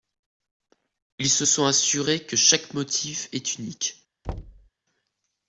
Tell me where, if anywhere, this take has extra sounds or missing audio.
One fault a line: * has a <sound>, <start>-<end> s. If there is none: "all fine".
* has a thud, 4.2-4.7 s